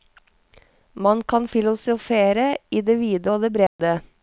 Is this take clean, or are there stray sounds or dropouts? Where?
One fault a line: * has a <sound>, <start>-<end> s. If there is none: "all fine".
* has a dropout, 3.7-3.8 s